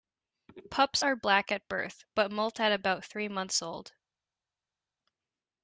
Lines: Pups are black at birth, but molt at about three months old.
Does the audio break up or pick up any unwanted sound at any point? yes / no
no